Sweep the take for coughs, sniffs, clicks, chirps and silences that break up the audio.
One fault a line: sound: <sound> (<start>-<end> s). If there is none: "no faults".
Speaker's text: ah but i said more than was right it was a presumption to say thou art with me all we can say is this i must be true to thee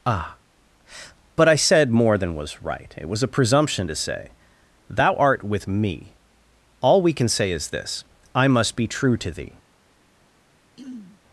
sound: throat clearing (10.8-11.2 s)